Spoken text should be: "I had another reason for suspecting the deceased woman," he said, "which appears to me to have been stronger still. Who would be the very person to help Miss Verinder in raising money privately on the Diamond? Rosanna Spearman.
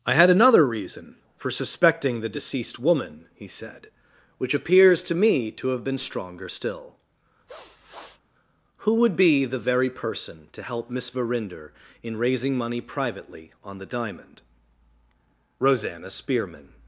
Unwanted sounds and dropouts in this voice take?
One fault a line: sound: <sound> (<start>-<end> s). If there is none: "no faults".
sound: sniff (7.5-8.2 s)